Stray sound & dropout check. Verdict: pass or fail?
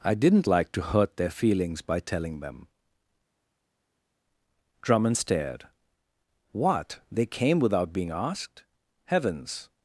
pass